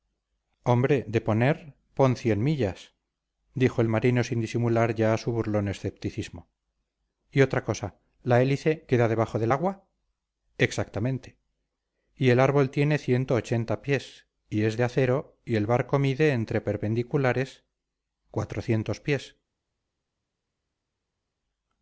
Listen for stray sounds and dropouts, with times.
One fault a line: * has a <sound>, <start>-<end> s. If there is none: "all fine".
all fine